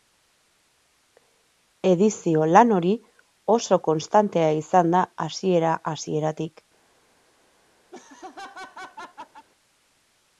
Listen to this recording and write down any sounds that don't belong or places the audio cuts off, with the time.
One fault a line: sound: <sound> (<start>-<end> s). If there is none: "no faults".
sound: laugh (7.9-9.5 s)